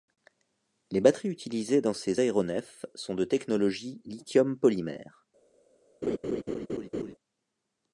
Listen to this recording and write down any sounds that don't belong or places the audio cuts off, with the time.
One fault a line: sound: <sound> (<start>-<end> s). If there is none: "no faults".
sound: laugh (6.0-7.2 s)